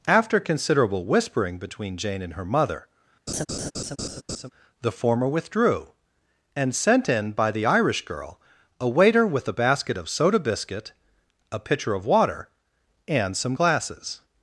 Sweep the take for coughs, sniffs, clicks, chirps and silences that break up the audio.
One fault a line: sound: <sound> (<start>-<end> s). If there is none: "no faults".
sound: laugh (3.3-4.5 s)